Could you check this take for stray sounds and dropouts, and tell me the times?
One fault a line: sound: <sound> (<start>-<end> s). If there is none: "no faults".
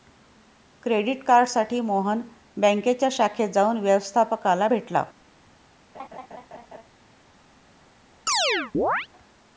sound: laugh (5.9-6.9 s)
sound: chirp (8.3-9.1 s)